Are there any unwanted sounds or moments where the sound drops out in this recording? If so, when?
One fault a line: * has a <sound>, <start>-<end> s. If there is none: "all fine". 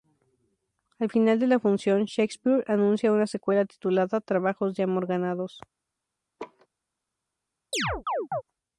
* has a laugh, 6.4-6.7 s
* has a chirp, 7.7-8.4 s